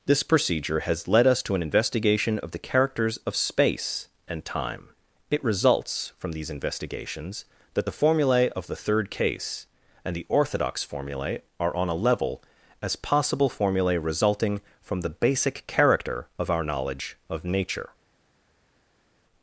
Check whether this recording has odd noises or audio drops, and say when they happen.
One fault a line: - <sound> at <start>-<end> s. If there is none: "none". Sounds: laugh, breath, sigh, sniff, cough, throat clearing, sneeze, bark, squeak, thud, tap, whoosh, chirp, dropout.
none